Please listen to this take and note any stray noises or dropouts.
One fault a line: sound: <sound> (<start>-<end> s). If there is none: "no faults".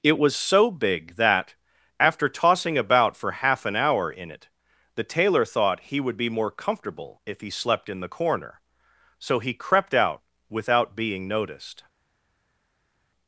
no faults